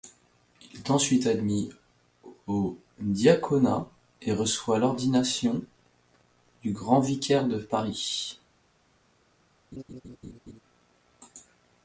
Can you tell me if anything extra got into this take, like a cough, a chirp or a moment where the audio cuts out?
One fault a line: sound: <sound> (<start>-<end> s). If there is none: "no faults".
sound: laugh (9.7-10.6 s)